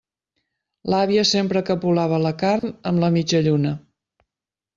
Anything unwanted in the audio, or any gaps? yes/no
yes